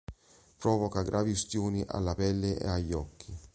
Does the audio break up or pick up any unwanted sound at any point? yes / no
no